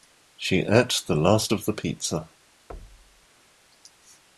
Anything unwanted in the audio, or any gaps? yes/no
yes